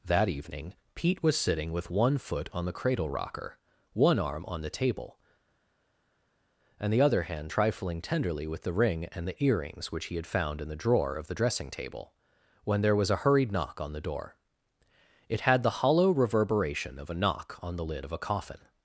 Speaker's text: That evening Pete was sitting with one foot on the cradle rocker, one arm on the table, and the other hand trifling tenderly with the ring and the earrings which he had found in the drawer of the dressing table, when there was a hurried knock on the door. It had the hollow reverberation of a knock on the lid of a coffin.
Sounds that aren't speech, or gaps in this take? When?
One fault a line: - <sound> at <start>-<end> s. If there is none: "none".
none